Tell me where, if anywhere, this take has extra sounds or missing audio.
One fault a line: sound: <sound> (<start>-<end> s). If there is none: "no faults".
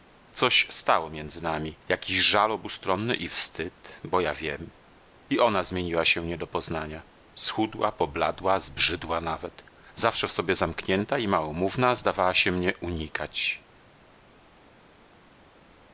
no faults